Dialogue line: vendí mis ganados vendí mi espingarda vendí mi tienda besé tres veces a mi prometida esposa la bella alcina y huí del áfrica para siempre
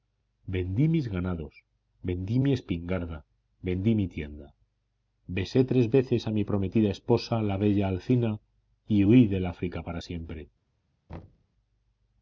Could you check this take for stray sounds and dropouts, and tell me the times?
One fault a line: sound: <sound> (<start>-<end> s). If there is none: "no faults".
sound: thud (11.1-11.5 s)